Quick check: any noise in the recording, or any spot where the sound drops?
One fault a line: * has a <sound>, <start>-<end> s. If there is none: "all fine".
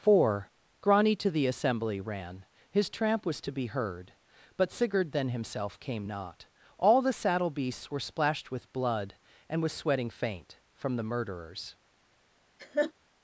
* has a laugh, 12.6-12.9 s